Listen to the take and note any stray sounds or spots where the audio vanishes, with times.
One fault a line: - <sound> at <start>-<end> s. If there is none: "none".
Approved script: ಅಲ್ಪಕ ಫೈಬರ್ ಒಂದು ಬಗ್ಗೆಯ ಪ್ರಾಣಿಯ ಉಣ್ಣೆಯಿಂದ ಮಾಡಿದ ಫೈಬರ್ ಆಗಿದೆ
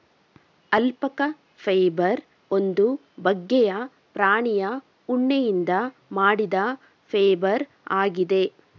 none